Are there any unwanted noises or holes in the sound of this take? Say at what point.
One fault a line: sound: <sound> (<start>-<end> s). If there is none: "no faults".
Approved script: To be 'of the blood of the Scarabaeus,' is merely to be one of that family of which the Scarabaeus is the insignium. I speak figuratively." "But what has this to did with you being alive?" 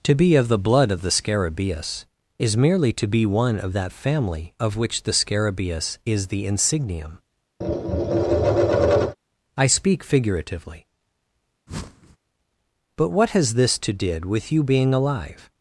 sound: tap (7.6-9.2 s)
sound: whoosh (11.7-12.2 s)